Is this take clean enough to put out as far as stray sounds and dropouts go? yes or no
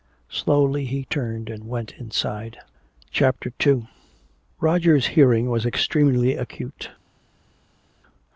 yes